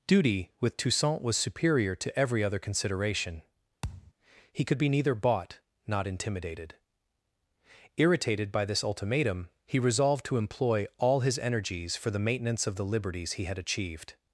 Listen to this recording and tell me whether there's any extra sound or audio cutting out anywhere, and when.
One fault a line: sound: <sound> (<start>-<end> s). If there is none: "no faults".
sound: thud (3.8-4.1 s)